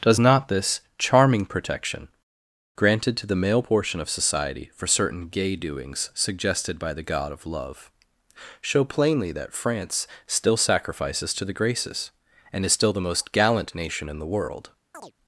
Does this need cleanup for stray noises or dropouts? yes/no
yes